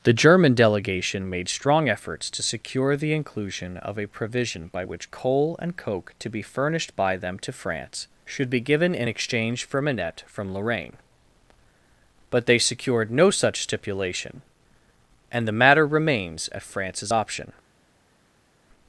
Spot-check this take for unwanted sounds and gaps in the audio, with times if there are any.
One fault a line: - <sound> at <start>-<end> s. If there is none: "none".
none